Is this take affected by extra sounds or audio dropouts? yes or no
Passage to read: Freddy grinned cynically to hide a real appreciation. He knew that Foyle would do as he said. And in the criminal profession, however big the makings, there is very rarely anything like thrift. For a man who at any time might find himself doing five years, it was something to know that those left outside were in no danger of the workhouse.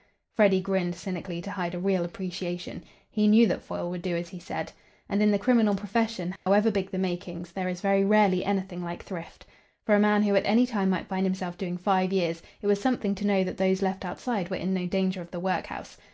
yes